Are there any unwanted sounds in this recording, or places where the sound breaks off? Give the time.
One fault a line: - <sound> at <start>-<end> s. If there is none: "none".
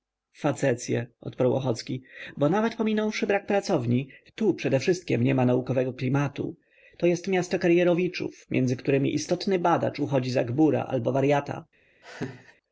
- laugh at 12.0-12.6 s